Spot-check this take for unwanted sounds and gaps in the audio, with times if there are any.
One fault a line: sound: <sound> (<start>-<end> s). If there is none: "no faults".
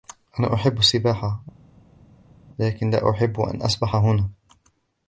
no faults